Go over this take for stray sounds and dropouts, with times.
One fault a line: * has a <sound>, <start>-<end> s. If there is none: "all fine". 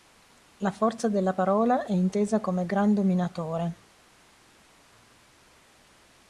all fine